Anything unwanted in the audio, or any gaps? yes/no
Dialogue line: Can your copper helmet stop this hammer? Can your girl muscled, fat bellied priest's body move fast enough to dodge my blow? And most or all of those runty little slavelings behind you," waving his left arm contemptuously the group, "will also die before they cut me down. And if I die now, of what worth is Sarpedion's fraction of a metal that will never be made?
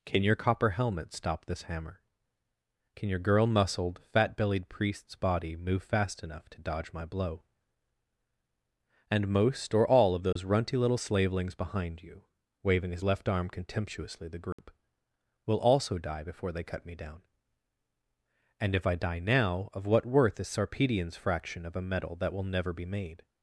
yes